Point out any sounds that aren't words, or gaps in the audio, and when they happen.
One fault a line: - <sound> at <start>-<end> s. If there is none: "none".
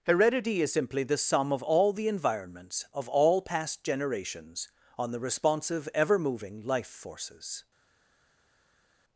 none